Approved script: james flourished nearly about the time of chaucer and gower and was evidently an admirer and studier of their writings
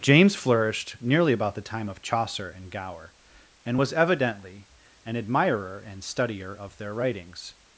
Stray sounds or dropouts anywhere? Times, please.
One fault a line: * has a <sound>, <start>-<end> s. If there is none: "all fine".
all fine